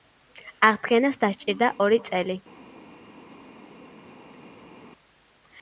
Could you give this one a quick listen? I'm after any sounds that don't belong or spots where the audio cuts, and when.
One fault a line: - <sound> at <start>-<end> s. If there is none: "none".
none